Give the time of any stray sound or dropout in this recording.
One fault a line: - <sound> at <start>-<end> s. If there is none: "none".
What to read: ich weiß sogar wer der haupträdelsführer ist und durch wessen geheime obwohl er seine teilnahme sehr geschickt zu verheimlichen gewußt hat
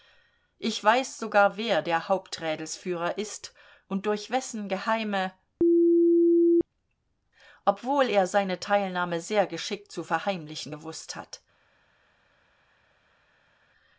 none